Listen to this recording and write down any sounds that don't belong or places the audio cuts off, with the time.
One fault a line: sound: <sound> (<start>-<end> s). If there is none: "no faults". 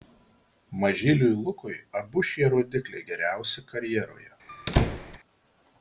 sound: squeak (4.5-5.2 s)